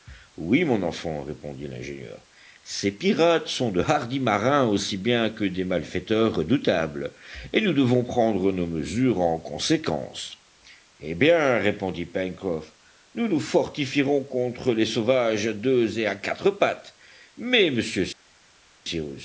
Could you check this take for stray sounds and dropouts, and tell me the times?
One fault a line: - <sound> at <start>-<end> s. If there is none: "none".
none